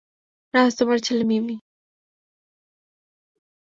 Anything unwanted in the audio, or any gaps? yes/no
no